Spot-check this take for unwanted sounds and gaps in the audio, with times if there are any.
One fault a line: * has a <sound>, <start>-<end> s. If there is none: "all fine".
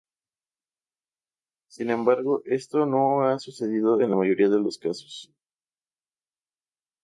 all fine